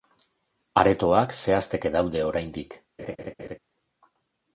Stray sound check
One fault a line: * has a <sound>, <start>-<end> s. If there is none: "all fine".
* has a laugh, 3.0-3.6 s